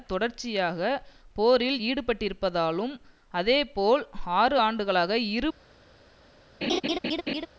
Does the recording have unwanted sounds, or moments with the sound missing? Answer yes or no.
yes